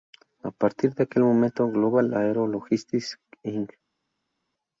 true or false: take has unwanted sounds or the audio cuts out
false